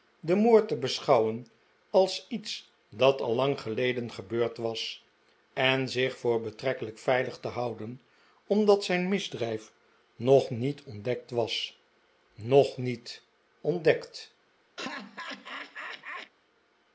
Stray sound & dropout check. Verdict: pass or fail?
fail